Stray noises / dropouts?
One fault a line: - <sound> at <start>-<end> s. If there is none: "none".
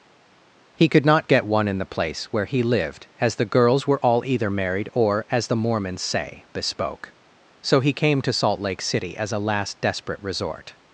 none